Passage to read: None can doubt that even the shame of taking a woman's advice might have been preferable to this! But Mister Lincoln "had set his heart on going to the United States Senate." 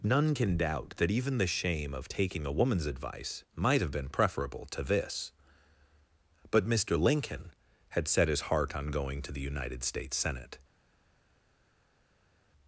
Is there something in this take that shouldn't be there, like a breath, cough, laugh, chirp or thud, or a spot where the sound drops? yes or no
no